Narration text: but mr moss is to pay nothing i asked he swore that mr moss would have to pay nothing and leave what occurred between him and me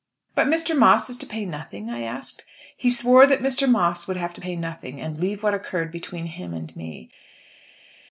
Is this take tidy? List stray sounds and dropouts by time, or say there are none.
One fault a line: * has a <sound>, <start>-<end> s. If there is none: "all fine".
all fine